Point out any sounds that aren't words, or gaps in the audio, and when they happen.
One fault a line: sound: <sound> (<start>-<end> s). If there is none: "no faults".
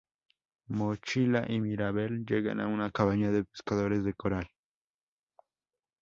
no faults